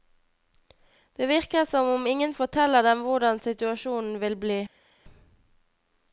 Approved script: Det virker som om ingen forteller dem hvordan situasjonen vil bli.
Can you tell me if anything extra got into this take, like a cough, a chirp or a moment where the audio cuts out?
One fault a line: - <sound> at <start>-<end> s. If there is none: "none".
none